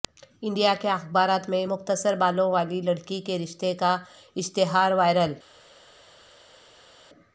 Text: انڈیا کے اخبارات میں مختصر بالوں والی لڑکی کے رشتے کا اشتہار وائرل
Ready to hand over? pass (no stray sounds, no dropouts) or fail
pass